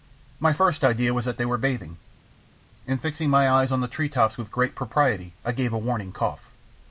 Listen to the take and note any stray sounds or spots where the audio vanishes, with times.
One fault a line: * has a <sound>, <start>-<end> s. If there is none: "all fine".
all fine